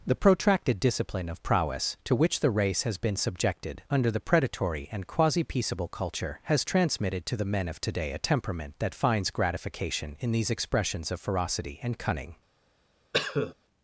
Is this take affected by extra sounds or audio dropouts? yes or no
yes